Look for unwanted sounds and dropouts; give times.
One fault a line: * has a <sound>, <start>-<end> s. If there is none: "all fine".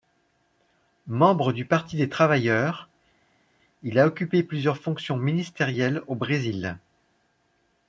all fine